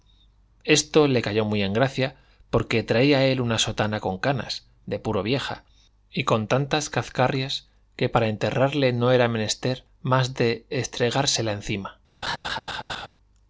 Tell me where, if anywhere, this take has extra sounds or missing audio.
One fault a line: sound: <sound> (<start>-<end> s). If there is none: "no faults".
sound: laugh (12.2-13.1 s)